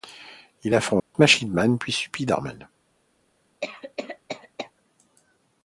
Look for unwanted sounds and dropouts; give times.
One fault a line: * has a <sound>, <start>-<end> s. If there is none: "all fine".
* has a dropout, 1.0-1.1 s
* has a cough, 3.6-4.7 s